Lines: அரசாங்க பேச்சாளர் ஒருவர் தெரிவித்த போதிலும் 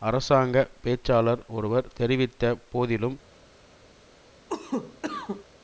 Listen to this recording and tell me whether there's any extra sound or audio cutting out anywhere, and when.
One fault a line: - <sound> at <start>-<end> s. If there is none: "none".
- cough at 4.5-5.5 s